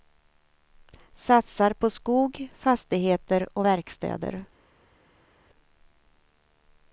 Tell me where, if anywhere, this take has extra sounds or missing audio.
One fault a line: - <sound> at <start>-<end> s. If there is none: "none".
none